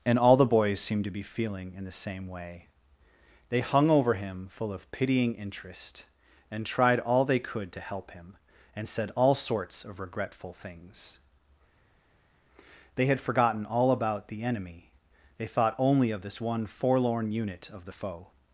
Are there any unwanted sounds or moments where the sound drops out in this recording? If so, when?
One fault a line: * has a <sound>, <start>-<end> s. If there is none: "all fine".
all fine